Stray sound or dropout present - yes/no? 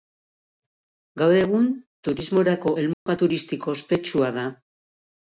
yes